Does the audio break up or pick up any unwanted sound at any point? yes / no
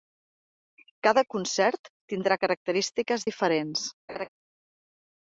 yes